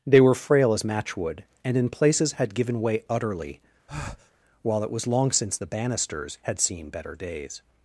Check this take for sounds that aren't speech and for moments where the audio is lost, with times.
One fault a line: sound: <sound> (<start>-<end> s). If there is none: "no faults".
sound: breath (3.9-4.3 s)